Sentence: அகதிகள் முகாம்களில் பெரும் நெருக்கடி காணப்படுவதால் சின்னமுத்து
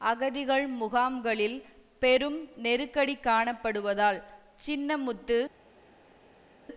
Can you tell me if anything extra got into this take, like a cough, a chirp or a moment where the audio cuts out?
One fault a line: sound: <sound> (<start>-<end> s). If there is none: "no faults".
no faults